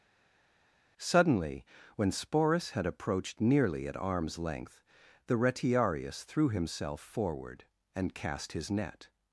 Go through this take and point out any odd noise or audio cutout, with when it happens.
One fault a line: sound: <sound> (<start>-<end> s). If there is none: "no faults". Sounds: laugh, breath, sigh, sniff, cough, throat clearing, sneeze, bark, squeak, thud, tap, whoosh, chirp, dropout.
no faults